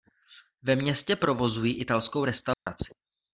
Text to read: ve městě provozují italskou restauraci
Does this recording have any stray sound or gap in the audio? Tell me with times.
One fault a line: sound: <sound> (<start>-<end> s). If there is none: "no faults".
sound: dropout (2.5-2.7 s)